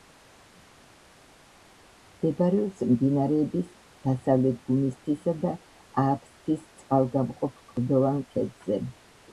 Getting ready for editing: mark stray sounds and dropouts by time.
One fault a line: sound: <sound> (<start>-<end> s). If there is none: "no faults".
no faults